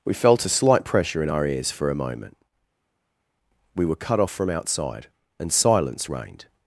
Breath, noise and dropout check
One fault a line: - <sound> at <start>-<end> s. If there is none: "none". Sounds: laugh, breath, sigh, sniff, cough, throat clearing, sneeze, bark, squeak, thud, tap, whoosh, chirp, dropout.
none